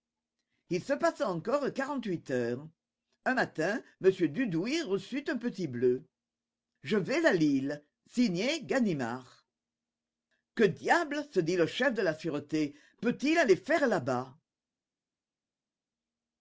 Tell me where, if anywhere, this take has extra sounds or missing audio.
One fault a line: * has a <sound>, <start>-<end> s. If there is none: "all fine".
all fine